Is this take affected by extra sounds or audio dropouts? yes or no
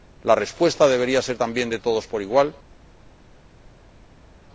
no